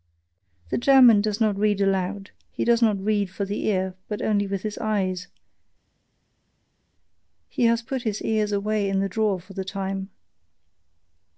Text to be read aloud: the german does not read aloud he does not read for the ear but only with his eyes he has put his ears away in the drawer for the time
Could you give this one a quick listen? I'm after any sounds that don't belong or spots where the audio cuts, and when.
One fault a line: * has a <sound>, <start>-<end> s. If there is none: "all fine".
all fine